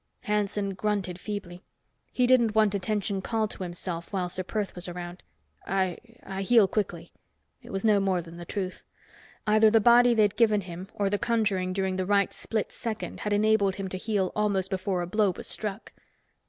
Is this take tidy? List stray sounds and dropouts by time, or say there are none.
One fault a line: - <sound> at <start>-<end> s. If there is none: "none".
none